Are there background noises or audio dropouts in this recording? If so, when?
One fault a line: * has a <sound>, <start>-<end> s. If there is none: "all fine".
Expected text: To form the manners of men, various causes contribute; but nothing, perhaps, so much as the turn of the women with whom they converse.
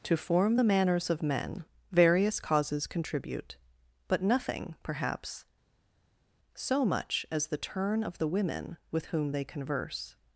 all fine